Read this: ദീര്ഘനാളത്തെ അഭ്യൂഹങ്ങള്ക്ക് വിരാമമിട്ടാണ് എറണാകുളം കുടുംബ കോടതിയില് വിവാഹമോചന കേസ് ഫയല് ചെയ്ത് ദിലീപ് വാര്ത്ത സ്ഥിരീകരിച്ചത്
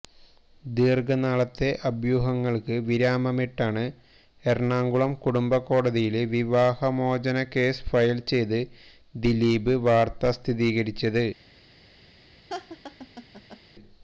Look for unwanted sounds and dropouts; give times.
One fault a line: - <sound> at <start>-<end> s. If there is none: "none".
- laugh at 12.5-13.6 s